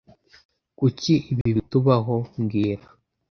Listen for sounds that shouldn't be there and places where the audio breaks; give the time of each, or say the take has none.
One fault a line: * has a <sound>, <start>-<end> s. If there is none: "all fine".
* has a dropout, 1.4-1.5 s